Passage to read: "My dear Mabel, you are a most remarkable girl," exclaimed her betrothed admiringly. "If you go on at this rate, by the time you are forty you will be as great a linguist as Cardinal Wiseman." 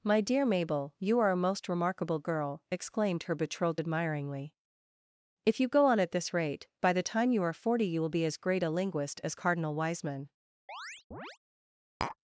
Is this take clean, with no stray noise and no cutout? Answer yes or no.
no